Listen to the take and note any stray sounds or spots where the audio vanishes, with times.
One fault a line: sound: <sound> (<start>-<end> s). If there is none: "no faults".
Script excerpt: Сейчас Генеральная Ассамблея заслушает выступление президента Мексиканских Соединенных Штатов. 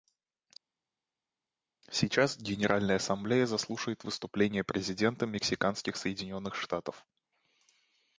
no faults